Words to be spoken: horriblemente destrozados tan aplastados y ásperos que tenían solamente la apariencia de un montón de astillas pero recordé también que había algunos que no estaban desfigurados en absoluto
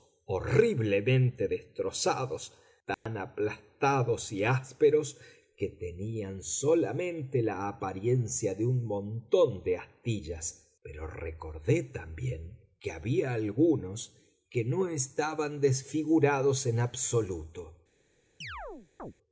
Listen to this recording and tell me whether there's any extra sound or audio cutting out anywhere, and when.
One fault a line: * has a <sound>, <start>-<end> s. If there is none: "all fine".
* has a dropout, 2.9-3.1 s
* has a chirp, 18.4-19.1 s